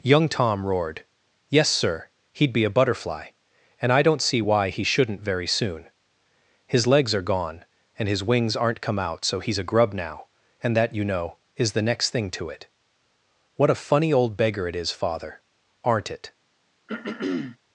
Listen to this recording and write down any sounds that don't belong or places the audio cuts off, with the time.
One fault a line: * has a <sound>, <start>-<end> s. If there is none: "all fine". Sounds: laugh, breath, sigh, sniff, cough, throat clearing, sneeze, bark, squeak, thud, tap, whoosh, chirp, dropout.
* has a throat clearing, 16.9-17.6 s